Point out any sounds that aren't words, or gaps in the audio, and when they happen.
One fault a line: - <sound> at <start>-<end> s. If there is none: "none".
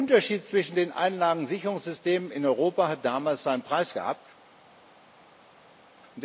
none